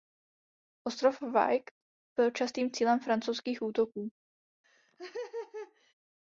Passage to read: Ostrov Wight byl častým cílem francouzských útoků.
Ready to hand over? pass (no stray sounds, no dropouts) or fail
fail